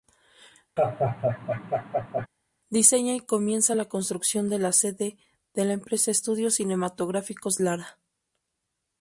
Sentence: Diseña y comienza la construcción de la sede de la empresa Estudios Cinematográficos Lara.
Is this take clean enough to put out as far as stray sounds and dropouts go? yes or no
no